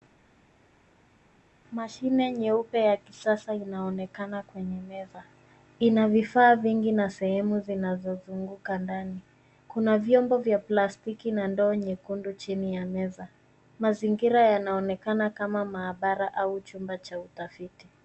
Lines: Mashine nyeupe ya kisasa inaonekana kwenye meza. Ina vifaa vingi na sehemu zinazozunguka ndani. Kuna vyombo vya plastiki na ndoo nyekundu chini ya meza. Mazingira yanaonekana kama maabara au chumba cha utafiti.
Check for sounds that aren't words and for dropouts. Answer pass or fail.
pass